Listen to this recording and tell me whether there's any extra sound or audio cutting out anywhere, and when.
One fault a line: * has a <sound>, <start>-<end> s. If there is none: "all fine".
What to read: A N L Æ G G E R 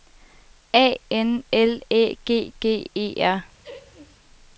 * has a laugh, 3.6-4.2 s